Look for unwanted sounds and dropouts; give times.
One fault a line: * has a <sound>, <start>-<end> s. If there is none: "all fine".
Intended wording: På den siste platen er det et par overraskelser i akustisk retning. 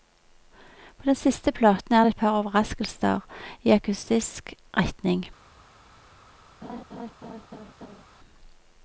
* has a laugh, 6.6-8.0 s